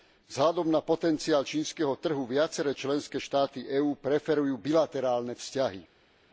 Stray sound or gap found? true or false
false